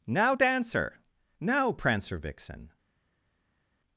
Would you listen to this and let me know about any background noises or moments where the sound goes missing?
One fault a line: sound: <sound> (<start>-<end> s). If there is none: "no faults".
no faults